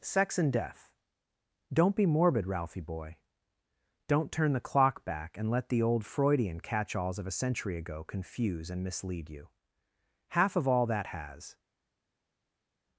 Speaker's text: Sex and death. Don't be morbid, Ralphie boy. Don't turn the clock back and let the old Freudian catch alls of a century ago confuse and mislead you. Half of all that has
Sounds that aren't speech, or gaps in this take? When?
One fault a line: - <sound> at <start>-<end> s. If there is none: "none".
none